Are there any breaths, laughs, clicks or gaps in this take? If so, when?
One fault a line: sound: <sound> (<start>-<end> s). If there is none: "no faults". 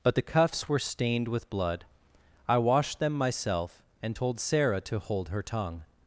no faults